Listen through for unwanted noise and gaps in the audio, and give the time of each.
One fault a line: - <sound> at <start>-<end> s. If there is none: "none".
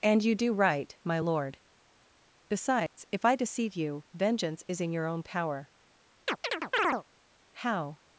- dropout at 2.9-3.0 s
- chirp at 6.3-7.0 s